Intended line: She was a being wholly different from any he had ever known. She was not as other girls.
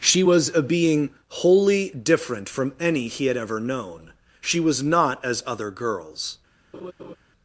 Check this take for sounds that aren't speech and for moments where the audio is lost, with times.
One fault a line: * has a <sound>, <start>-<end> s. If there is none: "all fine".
* has a laugh, 6.7-7.2 s